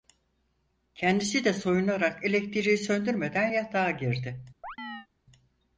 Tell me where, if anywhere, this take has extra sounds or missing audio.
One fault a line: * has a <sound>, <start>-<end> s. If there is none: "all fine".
* has a chirp, 4.6-5.1 s